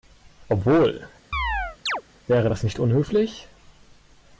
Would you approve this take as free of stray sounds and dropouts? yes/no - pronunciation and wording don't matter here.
no